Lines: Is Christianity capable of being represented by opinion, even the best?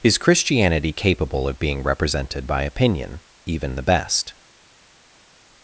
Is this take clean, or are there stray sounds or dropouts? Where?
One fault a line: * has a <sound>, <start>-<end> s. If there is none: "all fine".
all fine